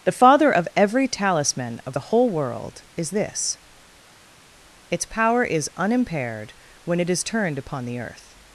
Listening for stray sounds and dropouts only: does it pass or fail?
pass